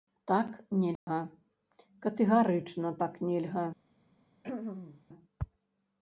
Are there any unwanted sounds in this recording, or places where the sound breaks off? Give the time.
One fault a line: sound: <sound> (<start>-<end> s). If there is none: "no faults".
sound: dropout (1.0-1.1 s)
sound: throat clearing (4.4-5.0 s)